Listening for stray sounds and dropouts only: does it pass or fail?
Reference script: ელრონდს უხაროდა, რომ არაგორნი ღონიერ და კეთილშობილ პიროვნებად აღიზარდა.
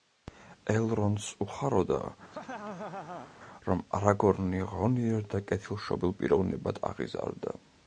fail